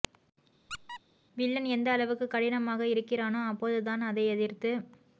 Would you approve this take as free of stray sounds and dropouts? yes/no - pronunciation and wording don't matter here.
no